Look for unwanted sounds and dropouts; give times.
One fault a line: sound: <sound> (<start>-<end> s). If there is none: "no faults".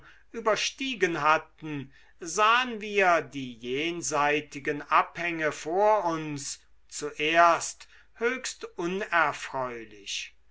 no faults